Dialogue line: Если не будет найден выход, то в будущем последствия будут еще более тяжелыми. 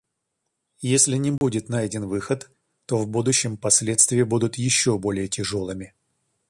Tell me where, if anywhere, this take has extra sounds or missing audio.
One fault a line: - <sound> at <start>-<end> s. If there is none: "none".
- dropout at 1.4-1.4 s